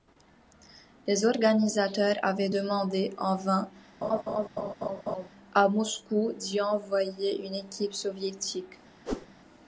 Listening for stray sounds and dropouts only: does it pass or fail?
fail